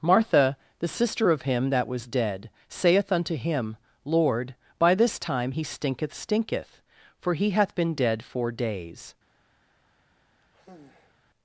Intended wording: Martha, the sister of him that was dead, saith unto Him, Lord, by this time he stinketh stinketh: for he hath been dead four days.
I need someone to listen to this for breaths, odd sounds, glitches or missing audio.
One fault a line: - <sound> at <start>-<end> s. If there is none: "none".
- sigh at 10.4-11.2 s